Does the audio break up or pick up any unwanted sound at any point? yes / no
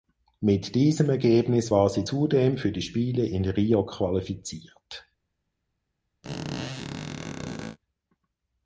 yes